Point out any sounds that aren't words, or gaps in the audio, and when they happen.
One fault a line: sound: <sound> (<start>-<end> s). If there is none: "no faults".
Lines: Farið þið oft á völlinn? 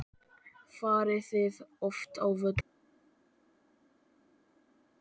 no faults